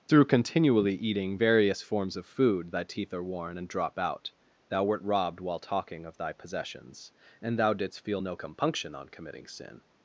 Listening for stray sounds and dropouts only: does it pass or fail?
pass